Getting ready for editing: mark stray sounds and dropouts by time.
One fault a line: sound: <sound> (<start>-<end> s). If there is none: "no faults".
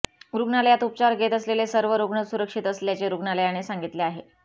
no faults